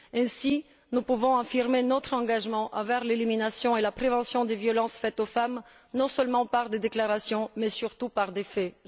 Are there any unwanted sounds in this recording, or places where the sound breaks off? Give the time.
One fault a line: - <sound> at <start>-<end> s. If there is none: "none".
none